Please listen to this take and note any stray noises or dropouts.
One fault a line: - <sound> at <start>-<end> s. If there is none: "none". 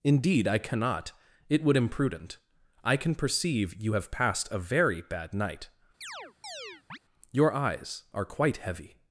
- chirp at 6.0-7.0 s